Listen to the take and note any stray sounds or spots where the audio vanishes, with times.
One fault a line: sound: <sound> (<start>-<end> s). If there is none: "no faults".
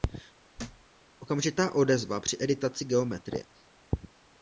sound: thud (0.6-0.9 s)